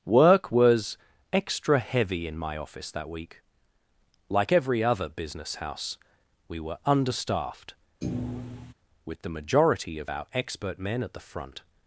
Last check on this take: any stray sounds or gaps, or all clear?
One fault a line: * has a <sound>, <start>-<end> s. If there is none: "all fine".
* has a thud, 8.0-8.7 s